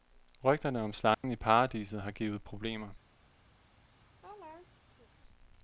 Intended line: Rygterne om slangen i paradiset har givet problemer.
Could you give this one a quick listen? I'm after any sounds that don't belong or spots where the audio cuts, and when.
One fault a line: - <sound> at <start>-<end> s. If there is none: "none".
- dropout at 1.1-1.2 s
- laugh at 3.6-5.1 s